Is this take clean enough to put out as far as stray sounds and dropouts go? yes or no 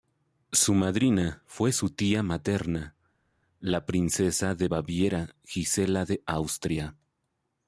yes